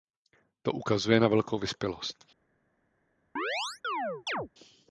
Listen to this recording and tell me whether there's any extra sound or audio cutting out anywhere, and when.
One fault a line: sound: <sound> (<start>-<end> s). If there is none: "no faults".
sound: chirp (3.4-4.5 s)